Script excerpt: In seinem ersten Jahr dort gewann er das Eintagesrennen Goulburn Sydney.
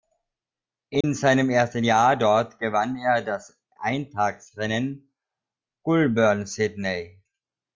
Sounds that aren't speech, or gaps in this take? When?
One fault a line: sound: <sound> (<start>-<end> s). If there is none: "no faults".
sound: dropout (1.0-1.0 s)